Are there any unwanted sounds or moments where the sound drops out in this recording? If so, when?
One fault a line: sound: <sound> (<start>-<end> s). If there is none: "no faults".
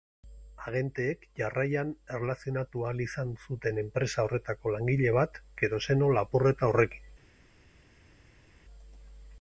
no faults